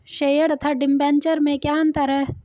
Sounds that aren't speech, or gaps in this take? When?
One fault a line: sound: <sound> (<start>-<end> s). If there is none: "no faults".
no faults